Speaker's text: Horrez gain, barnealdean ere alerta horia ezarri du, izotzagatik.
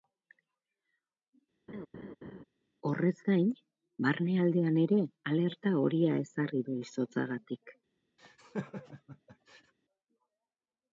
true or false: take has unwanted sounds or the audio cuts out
true